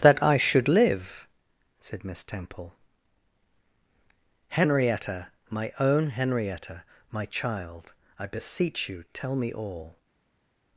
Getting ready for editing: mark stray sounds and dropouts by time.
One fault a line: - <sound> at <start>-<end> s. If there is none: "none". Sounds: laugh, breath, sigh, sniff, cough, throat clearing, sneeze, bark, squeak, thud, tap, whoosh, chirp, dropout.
none